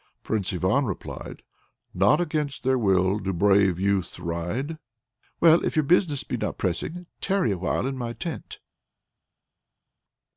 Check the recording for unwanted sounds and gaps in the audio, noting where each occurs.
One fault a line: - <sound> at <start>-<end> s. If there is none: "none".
none